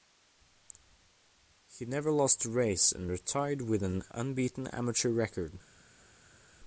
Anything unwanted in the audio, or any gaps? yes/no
no